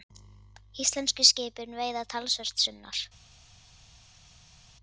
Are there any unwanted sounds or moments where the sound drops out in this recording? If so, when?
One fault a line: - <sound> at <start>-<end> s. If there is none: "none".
none